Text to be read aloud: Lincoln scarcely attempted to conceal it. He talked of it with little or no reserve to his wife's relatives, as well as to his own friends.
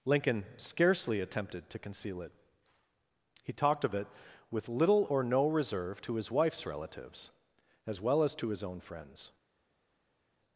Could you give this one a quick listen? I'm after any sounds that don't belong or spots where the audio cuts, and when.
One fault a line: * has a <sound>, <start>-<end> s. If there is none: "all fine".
all fine